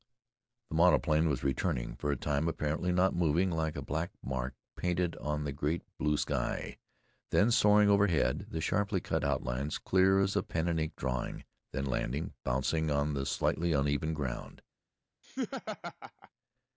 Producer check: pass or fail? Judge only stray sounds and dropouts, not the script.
fail